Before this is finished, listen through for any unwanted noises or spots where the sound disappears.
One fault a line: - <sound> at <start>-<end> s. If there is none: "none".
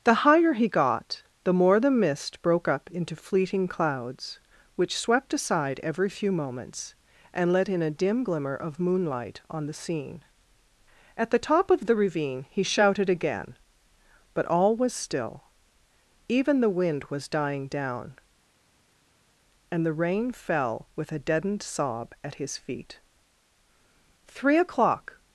none